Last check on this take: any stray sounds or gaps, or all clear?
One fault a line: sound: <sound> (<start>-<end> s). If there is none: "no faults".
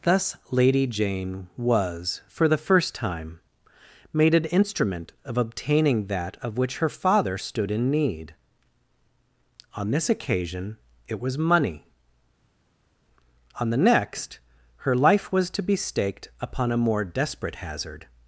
no faults